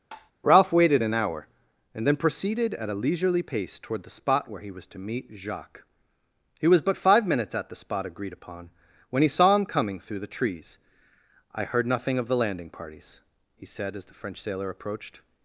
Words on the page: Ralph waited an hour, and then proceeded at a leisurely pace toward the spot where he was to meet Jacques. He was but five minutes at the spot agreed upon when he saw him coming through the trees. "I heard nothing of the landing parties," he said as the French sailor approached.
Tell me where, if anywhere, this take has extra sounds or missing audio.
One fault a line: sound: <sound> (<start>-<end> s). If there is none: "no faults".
sound: tap (0.1-0.3 s)